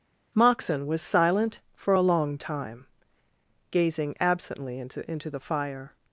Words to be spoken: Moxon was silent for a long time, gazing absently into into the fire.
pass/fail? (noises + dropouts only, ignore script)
pass